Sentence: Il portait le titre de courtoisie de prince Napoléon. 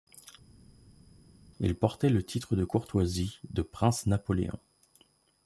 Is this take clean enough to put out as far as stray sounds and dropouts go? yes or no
yes